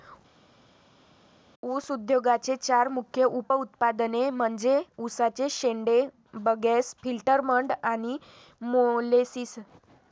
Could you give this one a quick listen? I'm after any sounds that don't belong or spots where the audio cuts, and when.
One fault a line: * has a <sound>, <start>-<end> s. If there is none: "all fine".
all fine